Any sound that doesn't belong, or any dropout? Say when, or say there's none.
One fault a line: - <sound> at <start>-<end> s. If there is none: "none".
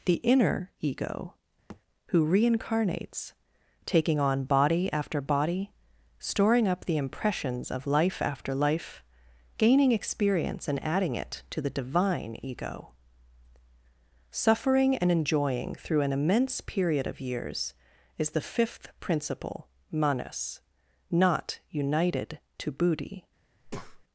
- thud at 1.7-1.8 s
- breath at 23.6-24.0 s